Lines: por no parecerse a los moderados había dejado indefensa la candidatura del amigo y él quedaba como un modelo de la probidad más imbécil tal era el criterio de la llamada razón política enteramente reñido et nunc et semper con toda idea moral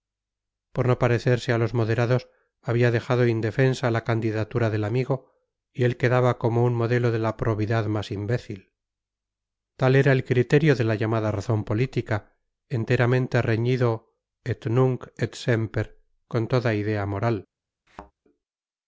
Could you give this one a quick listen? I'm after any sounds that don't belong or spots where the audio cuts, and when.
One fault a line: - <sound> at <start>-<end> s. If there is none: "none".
- thud at 17.9-18.1 s